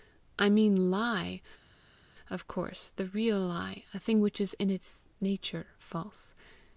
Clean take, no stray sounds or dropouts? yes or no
yes